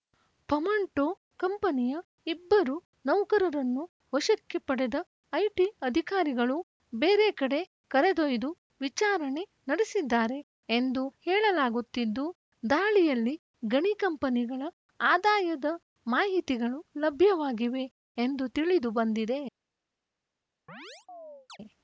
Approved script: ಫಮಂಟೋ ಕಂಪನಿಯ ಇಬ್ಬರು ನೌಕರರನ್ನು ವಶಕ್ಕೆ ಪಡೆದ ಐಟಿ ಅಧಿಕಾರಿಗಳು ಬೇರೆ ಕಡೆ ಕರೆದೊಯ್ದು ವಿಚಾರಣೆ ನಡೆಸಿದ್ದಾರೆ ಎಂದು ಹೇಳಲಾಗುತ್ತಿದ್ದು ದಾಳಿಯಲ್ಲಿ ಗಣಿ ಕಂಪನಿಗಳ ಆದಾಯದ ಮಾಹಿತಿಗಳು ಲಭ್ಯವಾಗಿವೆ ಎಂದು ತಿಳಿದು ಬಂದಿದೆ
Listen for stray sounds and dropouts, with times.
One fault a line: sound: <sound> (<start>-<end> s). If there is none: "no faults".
sound: chirp (20.7-21.6 s)